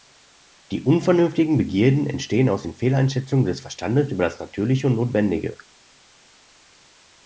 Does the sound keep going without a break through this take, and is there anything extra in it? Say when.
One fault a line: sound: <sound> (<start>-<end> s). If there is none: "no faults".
no faults